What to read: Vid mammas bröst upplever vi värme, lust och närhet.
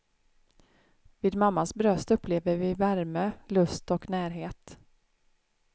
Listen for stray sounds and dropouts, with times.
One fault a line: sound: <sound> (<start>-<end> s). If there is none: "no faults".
no faults